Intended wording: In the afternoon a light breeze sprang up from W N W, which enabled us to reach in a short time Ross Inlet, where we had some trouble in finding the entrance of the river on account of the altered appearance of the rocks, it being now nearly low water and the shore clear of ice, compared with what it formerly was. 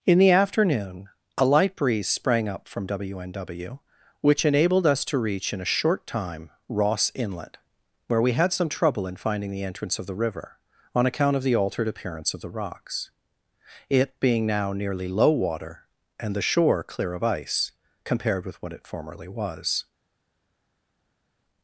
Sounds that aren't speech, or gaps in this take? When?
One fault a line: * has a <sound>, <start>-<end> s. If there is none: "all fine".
all fine